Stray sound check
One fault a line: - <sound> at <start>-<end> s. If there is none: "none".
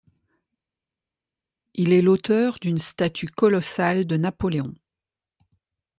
none